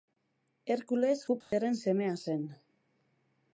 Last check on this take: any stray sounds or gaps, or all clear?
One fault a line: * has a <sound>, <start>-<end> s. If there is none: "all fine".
* has a dropout, 1.4-1.5 s